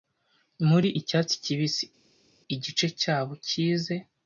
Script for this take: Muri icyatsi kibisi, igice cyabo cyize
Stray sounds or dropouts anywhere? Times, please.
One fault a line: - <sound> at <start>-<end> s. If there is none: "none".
none